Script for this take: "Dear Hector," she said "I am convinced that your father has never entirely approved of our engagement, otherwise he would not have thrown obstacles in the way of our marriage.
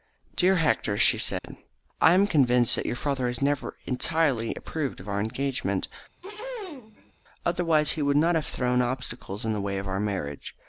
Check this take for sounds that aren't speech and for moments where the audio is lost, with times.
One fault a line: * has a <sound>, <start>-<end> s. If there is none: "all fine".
* has a dropout, 1.4-1.4 s
* has a throat clearing, 6.2-7.1 s